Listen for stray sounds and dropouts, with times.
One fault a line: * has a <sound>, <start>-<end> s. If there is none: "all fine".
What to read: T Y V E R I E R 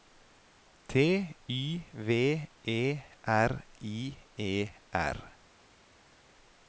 all fine